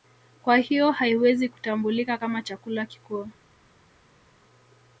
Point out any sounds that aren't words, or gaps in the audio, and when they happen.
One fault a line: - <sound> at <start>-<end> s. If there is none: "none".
none